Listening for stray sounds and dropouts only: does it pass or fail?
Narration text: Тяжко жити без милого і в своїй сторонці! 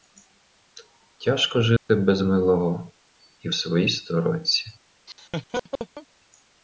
fail